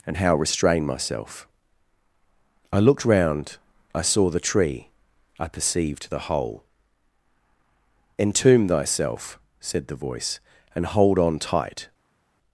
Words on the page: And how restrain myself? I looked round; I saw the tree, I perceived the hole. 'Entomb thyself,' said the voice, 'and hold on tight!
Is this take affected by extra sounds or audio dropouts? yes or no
no